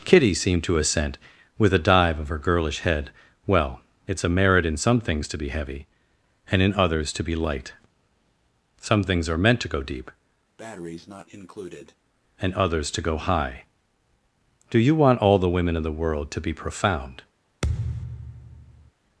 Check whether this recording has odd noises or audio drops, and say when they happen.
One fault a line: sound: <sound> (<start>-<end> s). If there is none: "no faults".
sound: breath (10.6-12.0 s)
sound: thud (17.6-18.9 s)